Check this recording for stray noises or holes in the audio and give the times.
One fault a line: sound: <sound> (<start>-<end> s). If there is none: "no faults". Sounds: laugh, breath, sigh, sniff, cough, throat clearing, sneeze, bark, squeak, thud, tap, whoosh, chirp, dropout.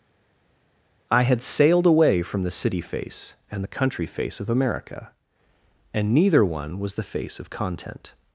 no faults